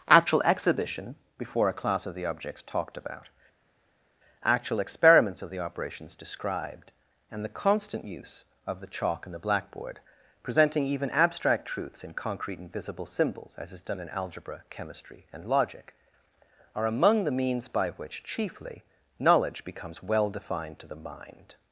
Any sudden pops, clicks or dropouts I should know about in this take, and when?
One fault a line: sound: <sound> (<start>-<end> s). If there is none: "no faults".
no faults